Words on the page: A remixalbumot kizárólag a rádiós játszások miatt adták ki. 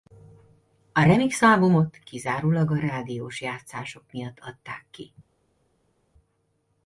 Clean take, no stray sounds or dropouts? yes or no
yes